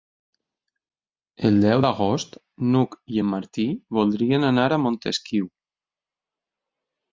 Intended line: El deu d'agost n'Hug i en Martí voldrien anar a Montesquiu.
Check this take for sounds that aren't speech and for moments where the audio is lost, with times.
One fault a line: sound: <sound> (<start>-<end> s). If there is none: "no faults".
no faults